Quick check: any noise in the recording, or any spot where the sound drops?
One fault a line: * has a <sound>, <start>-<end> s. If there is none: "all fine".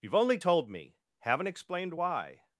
all fine